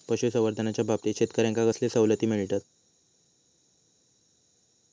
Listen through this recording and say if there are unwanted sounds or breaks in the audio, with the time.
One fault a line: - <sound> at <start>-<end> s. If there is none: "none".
none